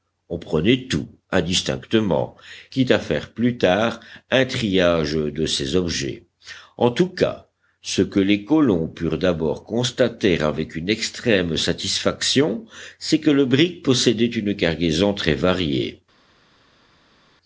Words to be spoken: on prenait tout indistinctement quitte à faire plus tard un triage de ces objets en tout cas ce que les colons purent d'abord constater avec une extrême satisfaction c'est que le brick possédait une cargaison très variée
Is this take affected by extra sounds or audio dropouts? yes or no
no